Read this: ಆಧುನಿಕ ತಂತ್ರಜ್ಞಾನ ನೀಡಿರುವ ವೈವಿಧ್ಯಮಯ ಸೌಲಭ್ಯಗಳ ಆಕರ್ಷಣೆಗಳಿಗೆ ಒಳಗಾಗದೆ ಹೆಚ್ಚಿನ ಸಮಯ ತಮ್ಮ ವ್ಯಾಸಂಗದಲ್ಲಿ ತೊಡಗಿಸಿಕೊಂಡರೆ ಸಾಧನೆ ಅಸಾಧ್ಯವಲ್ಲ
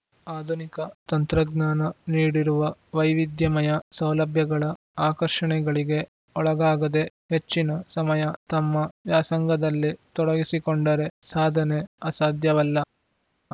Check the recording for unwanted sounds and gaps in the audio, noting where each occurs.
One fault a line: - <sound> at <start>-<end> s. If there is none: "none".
none